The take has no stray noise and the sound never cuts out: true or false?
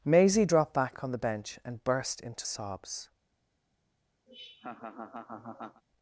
false